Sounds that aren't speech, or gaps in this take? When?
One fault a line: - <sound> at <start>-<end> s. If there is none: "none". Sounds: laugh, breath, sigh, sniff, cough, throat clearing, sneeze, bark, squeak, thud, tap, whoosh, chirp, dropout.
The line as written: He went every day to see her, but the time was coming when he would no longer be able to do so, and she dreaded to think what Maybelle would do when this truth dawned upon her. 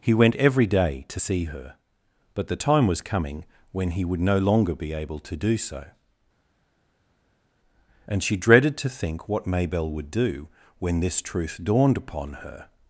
none